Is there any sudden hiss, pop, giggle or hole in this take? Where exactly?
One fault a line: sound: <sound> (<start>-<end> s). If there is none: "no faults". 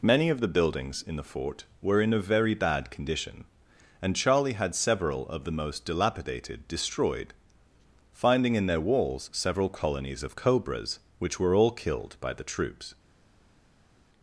no faults